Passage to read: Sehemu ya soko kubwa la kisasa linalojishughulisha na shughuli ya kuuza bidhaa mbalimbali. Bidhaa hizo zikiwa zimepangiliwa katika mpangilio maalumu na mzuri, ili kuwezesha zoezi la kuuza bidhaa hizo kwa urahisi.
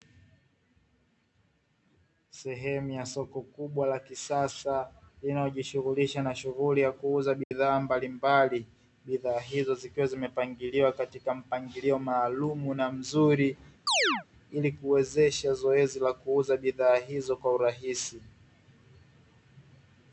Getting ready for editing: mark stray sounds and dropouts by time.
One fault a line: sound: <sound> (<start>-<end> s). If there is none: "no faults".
sound: dropout (7.4-7.5 s)
sound: chirp (13.9-14.2 s)